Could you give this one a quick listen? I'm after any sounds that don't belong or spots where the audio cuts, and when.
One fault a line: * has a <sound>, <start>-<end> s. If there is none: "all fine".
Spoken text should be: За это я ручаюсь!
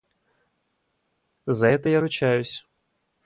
all fine